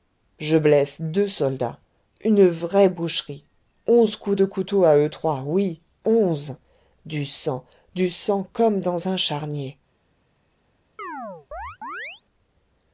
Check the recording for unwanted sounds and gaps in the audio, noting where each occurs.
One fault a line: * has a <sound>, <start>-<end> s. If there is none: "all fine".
* has a chirp, 11.0-12.2 s